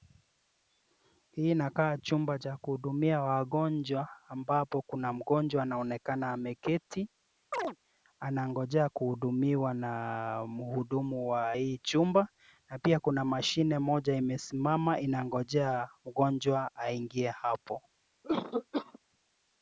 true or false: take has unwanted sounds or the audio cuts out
true